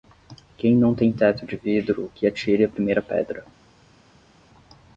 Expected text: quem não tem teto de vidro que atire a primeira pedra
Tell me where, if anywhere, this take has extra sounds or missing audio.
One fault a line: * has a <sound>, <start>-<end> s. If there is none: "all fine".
all fine